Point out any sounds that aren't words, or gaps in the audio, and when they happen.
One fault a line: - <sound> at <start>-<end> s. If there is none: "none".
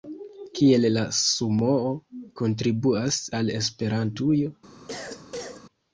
- cough at 4.9-5.7 s